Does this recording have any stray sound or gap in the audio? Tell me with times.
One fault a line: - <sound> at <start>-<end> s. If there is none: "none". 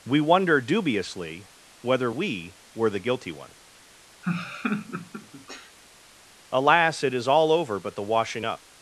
- laugh at 4.2-5.8 s